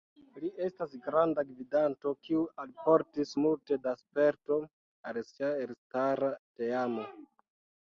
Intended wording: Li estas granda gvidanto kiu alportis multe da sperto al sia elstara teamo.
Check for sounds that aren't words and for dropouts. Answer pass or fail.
pass